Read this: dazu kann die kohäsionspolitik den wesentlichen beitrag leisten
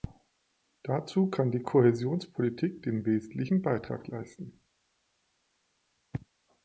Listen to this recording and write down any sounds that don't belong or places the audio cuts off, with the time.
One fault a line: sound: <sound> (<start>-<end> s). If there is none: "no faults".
no faults